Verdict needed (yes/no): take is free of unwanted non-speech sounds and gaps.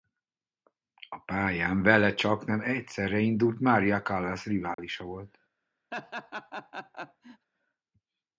no